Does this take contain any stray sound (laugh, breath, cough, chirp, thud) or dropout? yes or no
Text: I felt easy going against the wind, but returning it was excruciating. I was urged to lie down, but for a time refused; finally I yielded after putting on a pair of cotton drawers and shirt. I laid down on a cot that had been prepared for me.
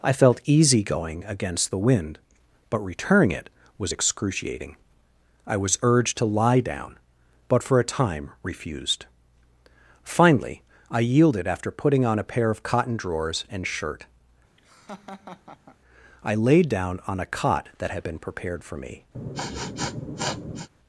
yes